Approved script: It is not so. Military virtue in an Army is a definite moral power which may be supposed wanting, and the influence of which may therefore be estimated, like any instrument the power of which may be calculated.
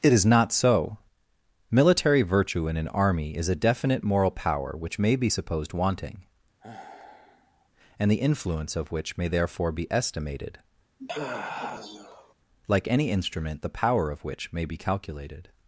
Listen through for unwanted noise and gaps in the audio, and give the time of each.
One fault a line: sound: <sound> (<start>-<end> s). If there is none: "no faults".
sound: sigh (6.6-7.7 s)
sound: sigh (11.0-12.3 s)